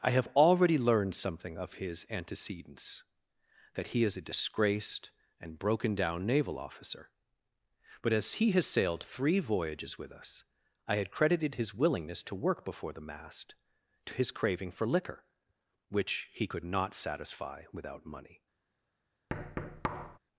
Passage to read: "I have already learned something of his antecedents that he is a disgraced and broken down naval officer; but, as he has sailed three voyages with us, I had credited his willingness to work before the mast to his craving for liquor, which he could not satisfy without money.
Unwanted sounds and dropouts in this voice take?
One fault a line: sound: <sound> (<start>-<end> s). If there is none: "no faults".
sound: thud (19.3-20.2 s)